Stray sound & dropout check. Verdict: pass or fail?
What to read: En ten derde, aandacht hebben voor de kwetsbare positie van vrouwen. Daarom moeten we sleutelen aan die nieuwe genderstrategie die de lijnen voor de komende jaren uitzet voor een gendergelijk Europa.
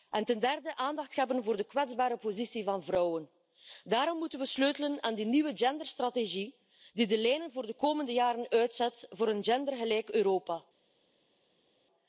pass